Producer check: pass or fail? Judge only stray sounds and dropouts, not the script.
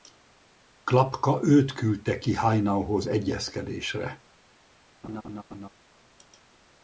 fail